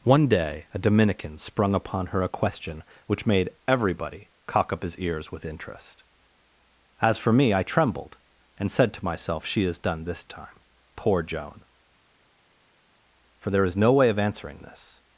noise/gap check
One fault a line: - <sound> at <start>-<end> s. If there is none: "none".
none